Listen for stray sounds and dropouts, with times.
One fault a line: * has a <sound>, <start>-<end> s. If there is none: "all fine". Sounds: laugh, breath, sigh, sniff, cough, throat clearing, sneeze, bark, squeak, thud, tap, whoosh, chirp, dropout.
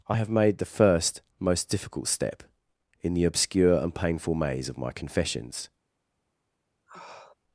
* has a sniff, 6.9-7.3 s